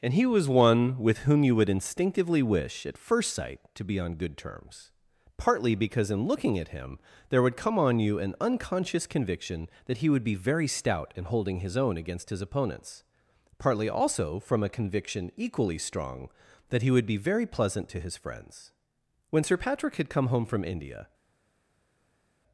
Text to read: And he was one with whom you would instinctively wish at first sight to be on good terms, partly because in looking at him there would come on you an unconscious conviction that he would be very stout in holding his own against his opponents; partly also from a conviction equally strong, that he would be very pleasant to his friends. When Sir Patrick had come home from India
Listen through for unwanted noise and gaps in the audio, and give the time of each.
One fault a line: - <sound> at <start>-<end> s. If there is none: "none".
none